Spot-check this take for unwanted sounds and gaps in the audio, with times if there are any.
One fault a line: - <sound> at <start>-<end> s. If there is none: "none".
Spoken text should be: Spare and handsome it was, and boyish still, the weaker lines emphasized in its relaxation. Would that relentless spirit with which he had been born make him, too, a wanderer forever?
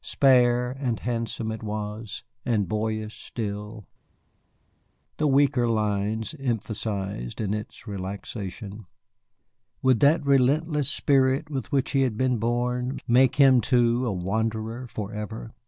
none